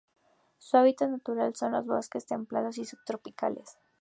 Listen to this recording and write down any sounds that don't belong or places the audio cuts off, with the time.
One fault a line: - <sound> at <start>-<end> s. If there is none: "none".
none